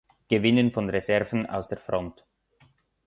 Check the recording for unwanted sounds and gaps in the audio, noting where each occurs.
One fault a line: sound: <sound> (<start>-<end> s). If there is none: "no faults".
no faults